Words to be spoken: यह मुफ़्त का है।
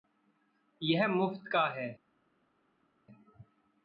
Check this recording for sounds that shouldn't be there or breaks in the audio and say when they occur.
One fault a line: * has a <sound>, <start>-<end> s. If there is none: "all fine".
all fine